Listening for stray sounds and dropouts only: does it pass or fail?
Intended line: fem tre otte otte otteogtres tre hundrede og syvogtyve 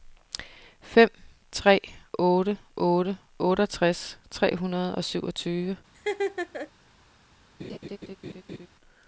fail